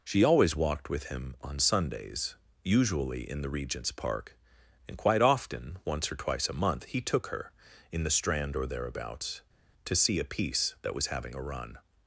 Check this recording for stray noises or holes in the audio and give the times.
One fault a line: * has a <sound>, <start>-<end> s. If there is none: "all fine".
all fine